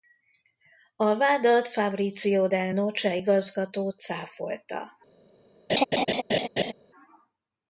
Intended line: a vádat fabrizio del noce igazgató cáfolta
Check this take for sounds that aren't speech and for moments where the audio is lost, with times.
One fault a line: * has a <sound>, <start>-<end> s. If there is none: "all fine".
* has a laugh, 5.7-6.7 s